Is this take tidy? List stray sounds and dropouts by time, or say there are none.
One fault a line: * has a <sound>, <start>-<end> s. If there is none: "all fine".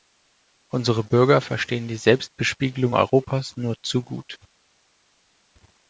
all fine